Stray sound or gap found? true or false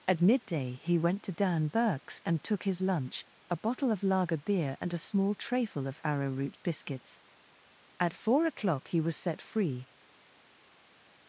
false